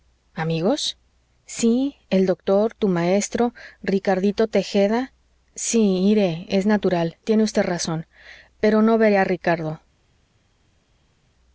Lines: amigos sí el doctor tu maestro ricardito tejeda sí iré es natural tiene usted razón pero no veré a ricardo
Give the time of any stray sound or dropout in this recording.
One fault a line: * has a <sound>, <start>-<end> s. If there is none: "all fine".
all fine